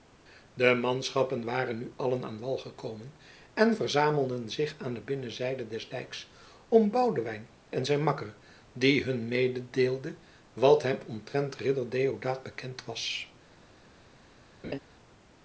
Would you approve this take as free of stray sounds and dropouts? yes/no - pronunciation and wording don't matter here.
no